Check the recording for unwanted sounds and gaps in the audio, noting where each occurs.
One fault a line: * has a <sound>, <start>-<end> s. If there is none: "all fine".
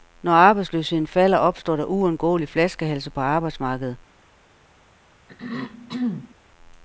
* has a throat clearing, 5.3-6.3 s